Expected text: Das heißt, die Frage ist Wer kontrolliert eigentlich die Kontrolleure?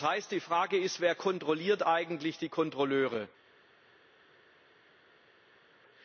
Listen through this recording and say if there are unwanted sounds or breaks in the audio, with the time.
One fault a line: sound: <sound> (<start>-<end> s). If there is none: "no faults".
no faults